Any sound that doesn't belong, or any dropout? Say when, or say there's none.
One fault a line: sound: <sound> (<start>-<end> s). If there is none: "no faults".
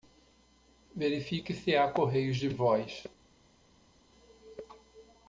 no faults